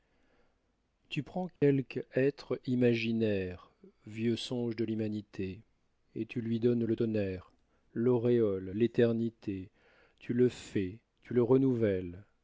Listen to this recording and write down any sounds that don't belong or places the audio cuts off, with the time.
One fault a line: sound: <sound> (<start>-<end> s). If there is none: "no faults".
sound: dropout (1.6-1.6 s)